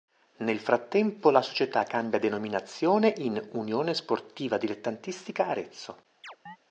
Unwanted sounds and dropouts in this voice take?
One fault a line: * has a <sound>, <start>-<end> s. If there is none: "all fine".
* has a chirp, 6.2-6.6 s